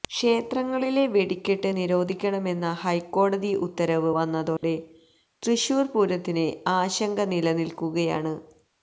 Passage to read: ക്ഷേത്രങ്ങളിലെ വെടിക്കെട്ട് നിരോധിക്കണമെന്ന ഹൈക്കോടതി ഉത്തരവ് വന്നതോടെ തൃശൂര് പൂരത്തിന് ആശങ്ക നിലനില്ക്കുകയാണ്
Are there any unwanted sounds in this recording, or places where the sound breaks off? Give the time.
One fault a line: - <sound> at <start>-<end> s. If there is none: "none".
- dropout at 4.6-4.6 s